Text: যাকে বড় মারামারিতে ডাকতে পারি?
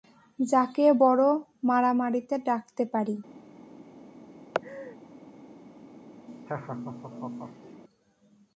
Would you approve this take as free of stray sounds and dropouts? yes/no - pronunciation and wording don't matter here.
no